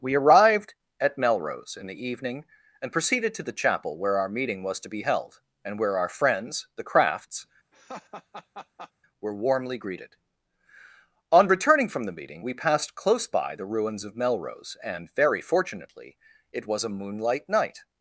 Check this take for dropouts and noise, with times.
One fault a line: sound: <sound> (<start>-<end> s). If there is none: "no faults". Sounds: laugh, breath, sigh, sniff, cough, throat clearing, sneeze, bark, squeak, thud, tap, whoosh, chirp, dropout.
sound: laugh (7.7-8.9 s)